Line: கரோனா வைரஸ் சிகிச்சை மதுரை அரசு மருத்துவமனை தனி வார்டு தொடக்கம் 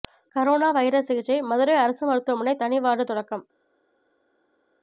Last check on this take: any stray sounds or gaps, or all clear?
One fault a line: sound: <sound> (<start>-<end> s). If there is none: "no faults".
no faults